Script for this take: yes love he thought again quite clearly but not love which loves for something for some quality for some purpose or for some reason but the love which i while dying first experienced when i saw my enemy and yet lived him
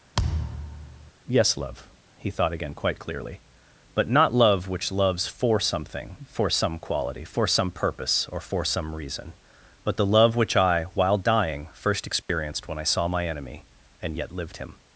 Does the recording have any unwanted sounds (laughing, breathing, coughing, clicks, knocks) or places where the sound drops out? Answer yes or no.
yes